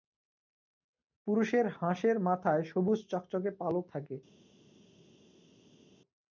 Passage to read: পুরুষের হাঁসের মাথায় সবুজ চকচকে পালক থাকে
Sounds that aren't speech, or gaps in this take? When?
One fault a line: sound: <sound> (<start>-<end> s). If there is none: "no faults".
no faults